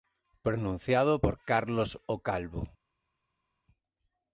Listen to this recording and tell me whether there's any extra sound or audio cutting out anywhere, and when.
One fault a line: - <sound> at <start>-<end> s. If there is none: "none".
none